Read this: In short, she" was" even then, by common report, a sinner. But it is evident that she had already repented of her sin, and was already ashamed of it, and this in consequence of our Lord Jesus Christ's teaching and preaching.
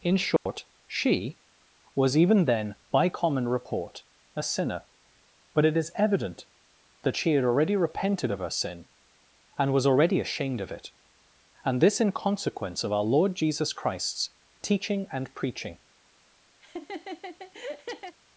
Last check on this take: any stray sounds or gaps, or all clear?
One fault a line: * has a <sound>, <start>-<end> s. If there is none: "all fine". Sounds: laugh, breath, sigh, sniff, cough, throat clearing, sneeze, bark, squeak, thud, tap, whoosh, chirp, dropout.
* has a dropout, 0.4-0.5 s
* has a laugh, 16.6-18.2 s